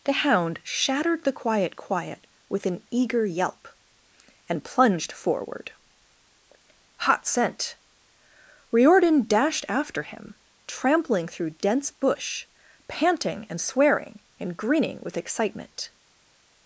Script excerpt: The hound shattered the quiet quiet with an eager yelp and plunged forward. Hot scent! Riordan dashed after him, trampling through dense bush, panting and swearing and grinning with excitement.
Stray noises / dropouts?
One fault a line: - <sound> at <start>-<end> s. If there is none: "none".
none